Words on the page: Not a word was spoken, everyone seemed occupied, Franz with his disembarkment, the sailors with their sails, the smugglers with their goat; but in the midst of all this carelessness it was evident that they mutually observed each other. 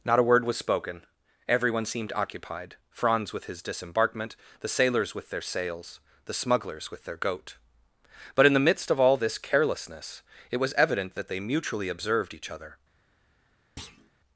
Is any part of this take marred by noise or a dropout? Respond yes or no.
yes